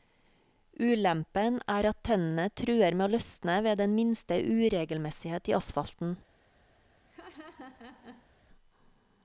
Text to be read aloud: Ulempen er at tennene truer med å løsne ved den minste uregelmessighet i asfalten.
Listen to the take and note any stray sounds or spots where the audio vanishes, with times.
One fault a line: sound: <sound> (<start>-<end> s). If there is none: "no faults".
sound: laugh (7.1-8.3 s)